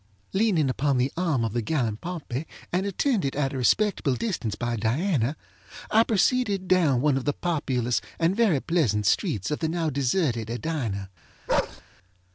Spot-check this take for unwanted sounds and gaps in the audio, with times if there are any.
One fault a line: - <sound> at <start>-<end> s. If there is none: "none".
- bark at 11.5-11.8 s